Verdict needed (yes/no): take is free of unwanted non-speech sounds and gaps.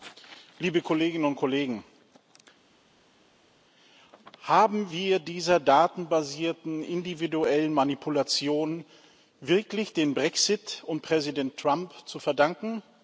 yes